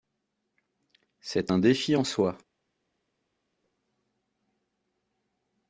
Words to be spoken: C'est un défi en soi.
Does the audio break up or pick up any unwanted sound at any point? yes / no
no